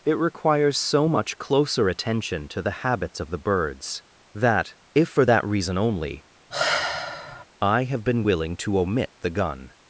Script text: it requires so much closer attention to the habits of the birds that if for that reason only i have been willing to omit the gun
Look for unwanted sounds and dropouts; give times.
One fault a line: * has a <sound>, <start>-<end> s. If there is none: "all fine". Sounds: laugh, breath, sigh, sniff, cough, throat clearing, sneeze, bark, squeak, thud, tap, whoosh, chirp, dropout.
* has a sigh, 6.5-7.5 s